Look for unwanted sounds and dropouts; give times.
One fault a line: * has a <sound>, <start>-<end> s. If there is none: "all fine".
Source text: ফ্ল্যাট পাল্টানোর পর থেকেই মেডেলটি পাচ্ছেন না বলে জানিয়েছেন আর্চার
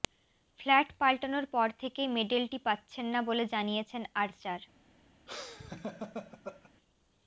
* has a laugh, 5.3-6.7 s